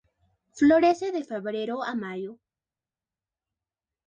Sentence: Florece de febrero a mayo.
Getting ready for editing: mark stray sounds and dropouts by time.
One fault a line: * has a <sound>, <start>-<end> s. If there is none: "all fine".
all fine